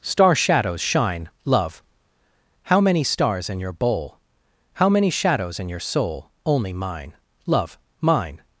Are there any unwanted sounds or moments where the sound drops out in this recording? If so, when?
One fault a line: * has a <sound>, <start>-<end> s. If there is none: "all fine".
all fine